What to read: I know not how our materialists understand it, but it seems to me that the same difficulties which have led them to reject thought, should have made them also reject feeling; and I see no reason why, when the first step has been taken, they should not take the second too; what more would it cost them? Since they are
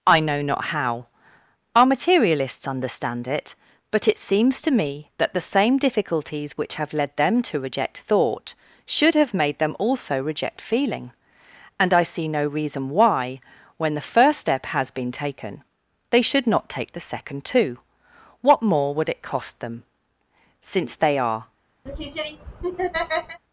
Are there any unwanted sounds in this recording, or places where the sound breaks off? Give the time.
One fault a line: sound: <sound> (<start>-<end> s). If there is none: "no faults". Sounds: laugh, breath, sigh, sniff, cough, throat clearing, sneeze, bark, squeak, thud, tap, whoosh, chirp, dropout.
sound: laugh (21.9-23.4 s)